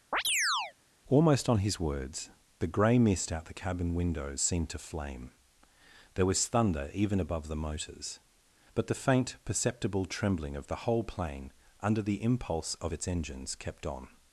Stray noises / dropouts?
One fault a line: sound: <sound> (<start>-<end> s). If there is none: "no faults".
sound: chirp (0.1-0.7 s)